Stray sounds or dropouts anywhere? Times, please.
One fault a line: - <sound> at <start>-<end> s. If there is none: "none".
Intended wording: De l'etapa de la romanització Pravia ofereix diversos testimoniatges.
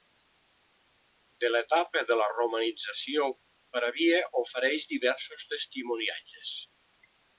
none